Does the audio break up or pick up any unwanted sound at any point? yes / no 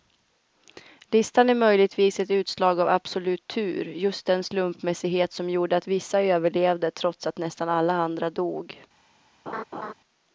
yes